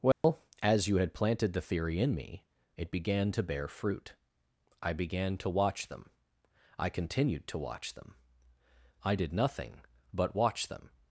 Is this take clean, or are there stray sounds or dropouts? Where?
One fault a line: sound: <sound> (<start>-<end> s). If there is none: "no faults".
sound: dropout (0.1-0.2 s)